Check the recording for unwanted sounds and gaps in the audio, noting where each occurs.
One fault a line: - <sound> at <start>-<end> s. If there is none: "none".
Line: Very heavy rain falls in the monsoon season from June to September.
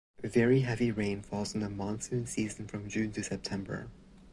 none